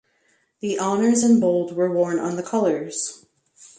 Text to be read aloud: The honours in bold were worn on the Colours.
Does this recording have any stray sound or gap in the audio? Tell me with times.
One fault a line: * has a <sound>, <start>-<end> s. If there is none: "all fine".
all fine